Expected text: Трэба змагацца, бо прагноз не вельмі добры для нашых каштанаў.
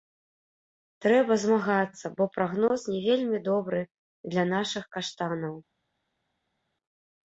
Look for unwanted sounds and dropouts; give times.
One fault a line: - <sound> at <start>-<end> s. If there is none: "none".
none